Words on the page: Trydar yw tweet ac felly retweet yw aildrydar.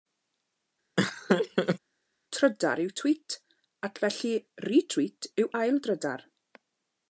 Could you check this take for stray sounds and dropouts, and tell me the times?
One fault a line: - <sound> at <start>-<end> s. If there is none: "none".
- laugh at 1.0-1.8 s